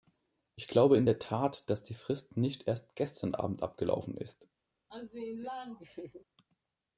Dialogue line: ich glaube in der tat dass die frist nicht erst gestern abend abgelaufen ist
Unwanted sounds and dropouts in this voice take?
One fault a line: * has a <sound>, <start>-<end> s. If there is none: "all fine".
* has a laugh, 4.9-6.2 s